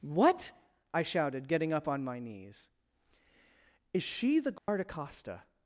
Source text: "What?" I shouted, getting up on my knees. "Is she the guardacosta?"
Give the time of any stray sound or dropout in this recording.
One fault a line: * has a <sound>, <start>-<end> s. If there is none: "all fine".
* has a dropout, 4.6-4.7 s